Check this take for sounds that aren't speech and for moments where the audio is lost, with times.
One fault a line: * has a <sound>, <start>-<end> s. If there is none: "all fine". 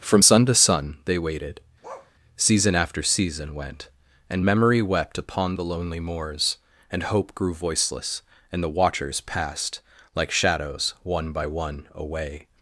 * has a bark, 1.8-2.1 s